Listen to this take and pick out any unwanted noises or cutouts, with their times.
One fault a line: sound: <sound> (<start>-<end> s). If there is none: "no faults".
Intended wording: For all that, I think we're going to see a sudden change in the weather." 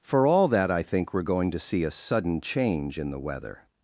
no faults